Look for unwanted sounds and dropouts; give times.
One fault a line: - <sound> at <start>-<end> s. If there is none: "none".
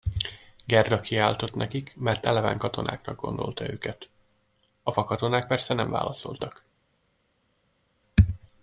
none